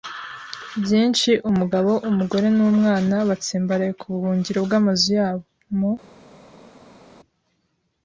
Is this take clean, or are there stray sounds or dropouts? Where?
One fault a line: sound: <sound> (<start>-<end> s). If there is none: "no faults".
no faults